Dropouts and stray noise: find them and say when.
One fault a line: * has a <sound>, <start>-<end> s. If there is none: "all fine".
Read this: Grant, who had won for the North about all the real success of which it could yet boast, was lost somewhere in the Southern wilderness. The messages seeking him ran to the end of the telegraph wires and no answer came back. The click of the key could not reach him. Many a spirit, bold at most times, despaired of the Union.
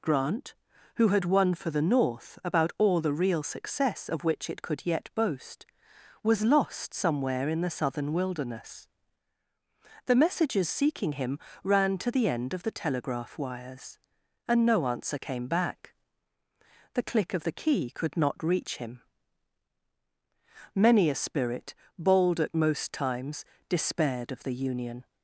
all fine